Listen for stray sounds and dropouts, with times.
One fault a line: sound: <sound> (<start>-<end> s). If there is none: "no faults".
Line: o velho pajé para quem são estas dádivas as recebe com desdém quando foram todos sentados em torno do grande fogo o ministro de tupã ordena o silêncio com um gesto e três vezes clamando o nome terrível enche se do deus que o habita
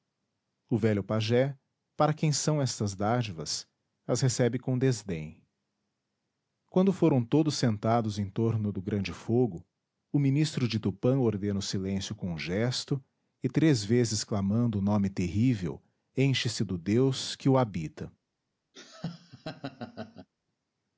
sound: laugh (18.7-20.3 s)